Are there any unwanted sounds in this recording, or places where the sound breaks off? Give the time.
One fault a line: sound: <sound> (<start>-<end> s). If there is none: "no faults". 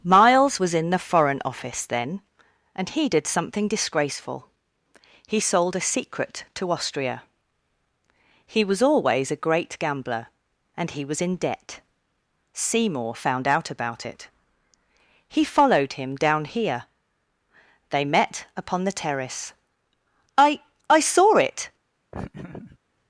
sound: laugh (22.1-22.8 s)